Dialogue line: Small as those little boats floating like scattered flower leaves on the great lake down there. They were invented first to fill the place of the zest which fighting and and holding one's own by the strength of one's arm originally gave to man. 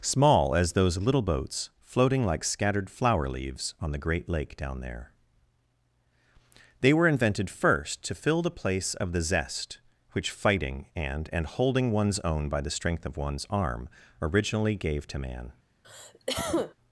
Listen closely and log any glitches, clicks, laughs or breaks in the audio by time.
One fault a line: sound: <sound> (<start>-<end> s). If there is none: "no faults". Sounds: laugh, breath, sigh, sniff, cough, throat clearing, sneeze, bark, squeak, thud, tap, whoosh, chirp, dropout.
sound: cough (15.8-16.7 s)